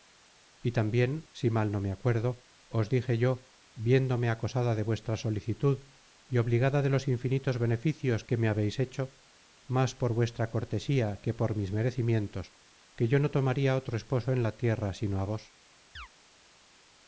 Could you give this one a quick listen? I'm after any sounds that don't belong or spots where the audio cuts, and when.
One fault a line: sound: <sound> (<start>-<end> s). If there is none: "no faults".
sound: chirp (16.0-16.1 s)